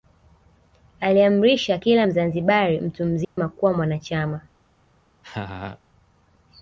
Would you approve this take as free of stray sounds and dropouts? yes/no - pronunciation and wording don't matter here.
no